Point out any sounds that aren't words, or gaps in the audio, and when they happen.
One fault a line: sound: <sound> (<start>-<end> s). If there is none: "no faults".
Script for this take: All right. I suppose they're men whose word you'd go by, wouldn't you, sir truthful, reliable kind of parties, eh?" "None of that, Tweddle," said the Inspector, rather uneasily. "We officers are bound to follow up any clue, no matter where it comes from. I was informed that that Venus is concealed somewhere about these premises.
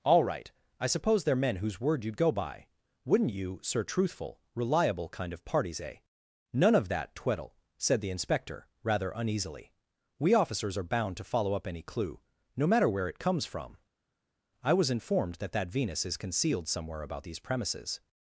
no faults